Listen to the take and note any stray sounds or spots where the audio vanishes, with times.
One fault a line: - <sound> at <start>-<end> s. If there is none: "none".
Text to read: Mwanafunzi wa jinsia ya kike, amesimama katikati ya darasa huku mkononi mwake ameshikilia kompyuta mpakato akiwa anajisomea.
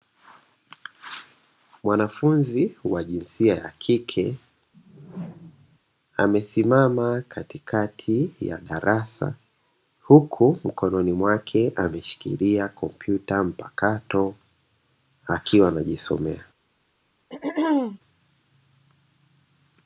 - whoosh at 4.7-5.8 s
- throat clearing at 17.3-18.0 s